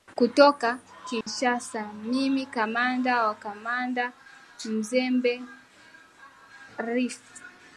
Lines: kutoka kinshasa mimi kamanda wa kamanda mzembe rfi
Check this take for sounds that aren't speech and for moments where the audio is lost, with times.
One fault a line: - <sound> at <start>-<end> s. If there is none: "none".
- dropout at 1.2-1.3 s